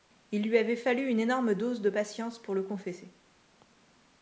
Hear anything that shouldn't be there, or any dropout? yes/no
no